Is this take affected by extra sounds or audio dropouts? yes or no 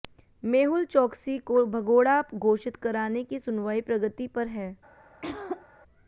yes